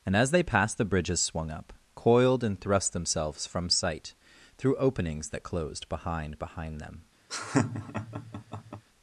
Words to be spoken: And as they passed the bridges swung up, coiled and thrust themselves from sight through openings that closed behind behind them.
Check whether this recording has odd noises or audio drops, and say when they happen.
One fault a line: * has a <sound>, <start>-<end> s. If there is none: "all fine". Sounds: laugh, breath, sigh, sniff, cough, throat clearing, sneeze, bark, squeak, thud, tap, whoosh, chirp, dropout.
* has a laugh, 7.3-8.8 s